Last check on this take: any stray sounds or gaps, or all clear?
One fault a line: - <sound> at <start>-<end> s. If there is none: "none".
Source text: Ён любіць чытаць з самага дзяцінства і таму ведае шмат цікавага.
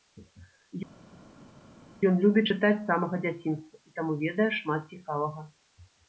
none